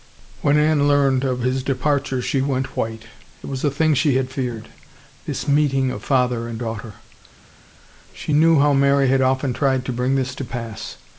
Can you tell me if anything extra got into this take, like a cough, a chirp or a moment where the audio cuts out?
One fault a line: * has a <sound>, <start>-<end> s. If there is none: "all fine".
all fine